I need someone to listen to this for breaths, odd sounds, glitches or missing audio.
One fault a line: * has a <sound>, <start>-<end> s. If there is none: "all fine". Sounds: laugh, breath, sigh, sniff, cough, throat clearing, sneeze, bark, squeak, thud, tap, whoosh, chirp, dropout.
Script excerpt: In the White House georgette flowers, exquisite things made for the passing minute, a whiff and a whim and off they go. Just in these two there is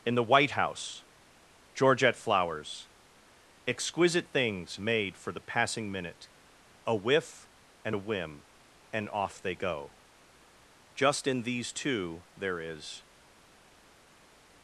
all fine